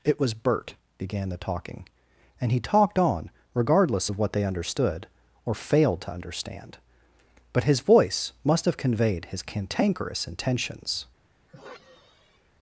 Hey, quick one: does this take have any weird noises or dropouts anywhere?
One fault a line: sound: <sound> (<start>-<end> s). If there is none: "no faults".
sound: sigh (11.5-12.5 s)